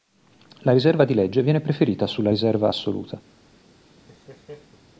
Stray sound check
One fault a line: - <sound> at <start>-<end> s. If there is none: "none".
- laugh at 3.9-4.8 s